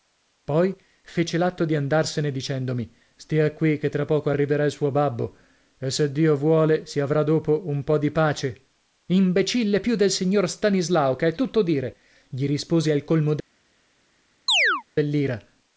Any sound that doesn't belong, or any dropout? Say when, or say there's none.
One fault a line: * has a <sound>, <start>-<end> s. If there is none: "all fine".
* has a chirp, 14.5-14.8 s